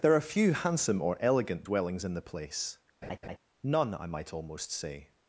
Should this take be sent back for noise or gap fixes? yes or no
yes